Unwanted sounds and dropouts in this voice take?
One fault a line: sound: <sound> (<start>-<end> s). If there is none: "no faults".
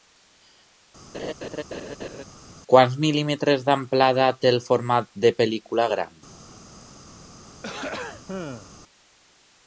sound: laugh (1.1-2.2 s)
sound: throat clearing (7.5-8.7 s)